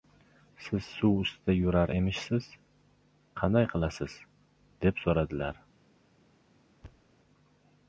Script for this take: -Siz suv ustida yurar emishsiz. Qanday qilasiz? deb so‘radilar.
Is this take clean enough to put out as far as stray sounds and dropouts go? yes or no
no